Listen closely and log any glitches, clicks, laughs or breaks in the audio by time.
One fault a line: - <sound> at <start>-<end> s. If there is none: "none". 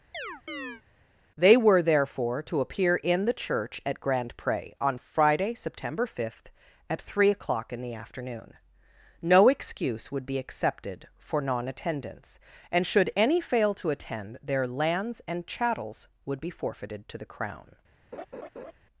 - chirp at 0.1-0.8 s
- laugh at 18.1-18.7 s